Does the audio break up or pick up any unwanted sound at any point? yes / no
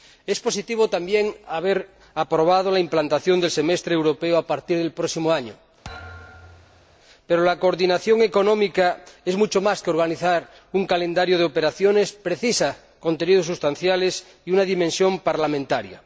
yes